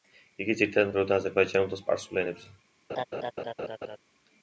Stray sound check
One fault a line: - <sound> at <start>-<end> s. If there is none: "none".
- laugh at 2.9-4.0 s